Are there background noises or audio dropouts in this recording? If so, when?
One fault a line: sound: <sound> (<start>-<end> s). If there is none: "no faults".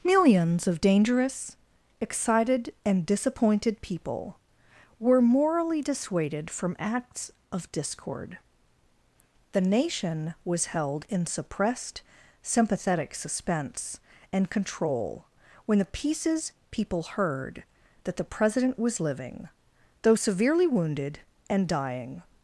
no faults